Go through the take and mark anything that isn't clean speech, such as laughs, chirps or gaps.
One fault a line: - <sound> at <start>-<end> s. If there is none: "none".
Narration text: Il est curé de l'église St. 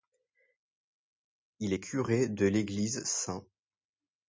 none